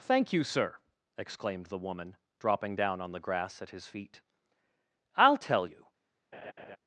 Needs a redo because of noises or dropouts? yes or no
yes